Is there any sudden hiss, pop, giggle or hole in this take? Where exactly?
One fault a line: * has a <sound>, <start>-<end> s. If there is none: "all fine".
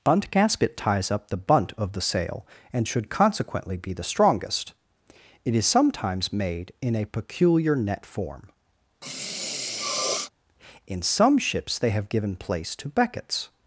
* has a sniff, 9.0-10.3 s